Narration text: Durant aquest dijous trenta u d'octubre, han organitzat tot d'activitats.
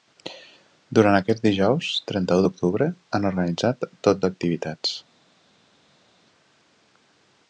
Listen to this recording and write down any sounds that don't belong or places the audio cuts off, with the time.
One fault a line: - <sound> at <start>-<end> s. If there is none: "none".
none